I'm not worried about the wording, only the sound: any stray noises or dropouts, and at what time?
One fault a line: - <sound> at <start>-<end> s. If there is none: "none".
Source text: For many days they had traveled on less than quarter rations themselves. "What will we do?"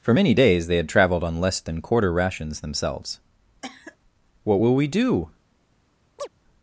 - cough at 3.6-4.0 s
- chirp at 6.2-6.3 s